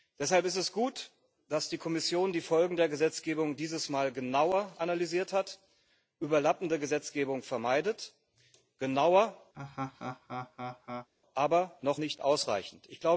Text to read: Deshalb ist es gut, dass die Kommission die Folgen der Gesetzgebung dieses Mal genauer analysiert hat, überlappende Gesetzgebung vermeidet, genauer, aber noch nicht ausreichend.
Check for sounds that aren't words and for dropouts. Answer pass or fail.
fail